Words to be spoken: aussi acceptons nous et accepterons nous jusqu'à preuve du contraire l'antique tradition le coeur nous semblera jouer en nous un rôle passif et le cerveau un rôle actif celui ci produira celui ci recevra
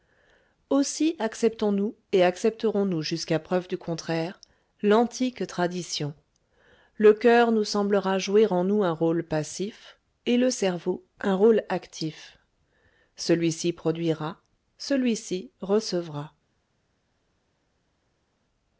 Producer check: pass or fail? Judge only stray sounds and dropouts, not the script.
pass